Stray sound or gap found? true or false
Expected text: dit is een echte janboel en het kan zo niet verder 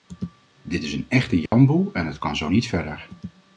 true